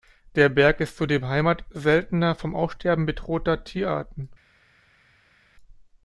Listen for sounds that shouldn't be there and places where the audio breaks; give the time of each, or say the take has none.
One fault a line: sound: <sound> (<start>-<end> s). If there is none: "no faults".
no faults